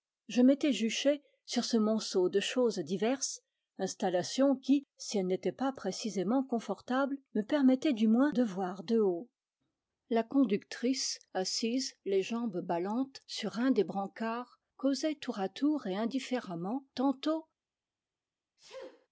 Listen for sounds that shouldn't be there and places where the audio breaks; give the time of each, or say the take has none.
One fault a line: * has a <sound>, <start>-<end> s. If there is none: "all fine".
* has a sneeze, 18.6-19.1 s